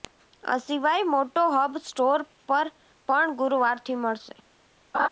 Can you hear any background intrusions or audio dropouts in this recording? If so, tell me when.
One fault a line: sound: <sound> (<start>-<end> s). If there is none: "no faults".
sound: laugh (4.9-5.1 s)